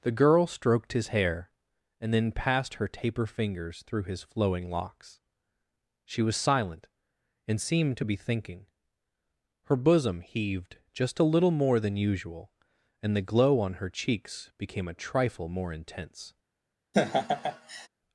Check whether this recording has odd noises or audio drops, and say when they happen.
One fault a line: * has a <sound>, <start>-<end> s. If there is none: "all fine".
* has a laugh, 16.9-17.9 s